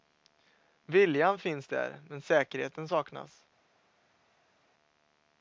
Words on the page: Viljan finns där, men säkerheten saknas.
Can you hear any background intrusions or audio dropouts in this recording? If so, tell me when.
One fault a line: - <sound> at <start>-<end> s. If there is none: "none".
none